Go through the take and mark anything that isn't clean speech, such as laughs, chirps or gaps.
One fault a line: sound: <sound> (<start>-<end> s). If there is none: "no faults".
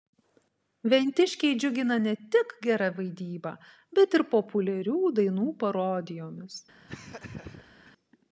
sound: laugh (6.9-7.9 s)